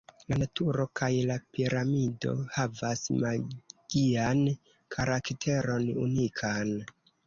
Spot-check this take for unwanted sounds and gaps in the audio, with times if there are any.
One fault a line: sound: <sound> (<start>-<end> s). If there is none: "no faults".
no faults